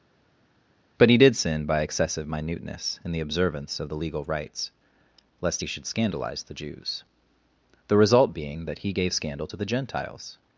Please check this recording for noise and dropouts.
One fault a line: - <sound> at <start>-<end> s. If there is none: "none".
none